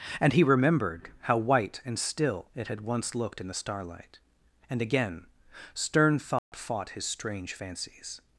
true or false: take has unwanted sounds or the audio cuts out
true